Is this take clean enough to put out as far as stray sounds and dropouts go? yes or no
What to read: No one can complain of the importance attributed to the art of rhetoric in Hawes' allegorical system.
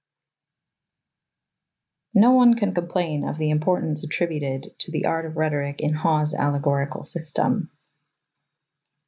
yes